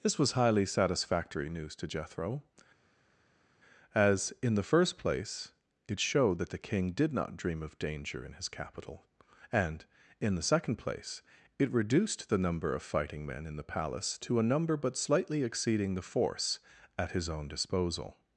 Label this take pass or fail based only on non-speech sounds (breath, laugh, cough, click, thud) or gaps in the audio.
pass